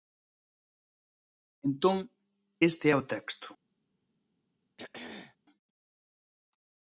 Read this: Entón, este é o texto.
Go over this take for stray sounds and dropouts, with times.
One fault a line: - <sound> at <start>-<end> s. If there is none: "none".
- throat clearing at 4.8-5.4 s